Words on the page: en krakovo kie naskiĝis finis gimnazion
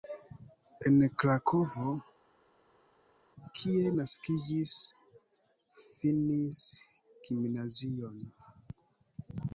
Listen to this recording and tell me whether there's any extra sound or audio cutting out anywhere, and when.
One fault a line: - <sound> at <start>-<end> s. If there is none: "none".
none